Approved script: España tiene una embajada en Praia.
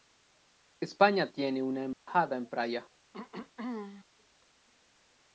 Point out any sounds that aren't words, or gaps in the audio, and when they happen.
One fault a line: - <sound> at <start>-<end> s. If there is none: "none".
- dropout at 1.9-2.1 s
- throat clearing at 3.1-4.0 s